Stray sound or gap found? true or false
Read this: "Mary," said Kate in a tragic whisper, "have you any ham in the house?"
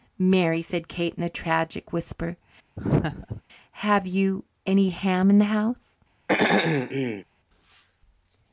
true